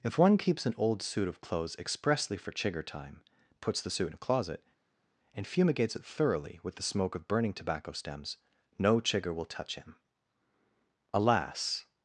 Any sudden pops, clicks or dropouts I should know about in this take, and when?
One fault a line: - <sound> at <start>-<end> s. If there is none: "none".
none